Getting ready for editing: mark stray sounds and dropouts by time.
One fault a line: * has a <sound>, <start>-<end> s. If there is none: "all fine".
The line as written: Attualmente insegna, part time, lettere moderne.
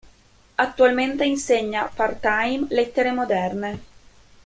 all fine